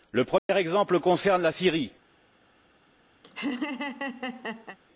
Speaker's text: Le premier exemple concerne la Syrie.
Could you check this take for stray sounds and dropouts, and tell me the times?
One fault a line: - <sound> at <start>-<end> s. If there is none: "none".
- dropout at 0.4-0.5 s
- laugh at 3.2-4.8 s